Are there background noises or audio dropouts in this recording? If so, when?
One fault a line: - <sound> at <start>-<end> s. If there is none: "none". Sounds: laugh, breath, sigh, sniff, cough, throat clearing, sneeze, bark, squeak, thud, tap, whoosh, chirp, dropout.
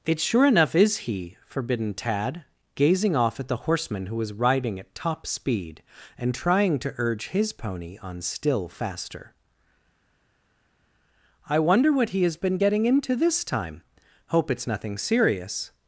none